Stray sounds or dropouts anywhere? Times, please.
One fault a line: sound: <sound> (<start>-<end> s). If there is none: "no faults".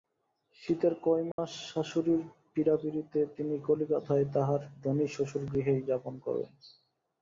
sound: dropout (1.3-1.4 s)